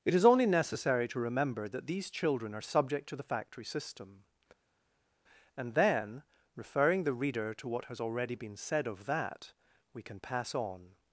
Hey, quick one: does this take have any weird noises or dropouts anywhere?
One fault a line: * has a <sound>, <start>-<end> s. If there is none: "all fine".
all fine